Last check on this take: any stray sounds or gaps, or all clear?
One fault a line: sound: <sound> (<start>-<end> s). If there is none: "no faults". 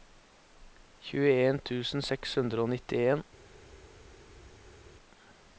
no faults